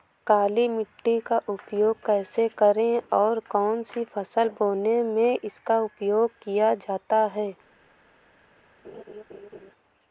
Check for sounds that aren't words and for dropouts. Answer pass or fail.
fail